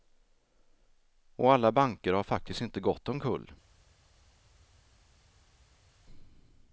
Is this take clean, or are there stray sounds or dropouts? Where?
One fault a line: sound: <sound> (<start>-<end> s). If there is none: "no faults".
no faults